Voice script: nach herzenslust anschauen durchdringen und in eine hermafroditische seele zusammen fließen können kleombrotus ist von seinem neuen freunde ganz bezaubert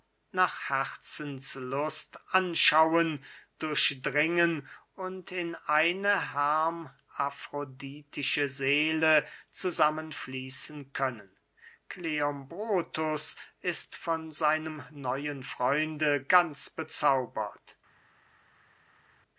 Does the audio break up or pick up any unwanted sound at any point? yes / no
no